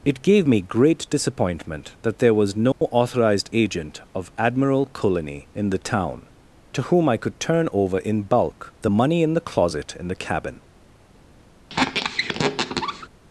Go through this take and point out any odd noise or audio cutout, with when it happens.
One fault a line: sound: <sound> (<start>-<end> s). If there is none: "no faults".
sound: dropout (2.7-2.8 s)
sound: squeak (11.7-13.1 s)